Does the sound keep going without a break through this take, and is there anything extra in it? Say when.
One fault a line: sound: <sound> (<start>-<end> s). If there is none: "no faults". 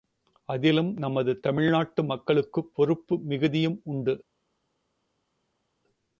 no faults